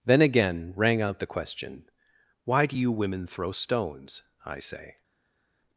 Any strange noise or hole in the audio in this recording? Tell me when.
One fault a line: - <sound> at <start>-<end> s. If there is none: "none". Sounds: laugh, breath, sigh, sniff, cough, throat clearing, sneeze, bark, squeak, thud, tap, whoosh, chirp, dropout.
none